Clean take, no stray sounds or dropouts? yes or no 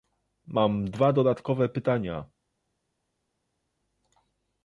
yes